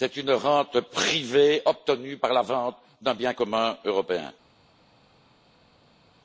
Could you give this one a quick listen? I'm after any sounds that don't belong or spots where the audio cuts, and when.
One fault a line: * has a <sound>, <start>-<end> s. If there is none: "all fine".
all fine